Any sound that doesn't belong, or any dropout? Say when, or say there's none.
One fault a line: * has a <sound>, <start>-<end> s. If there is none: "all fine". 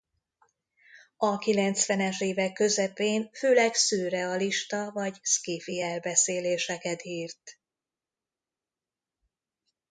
all fine